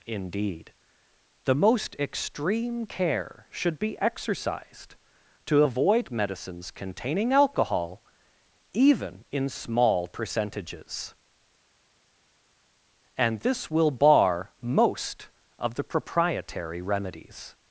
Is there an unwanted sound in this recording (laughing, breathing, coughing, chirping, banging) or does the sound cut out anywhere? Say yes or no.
no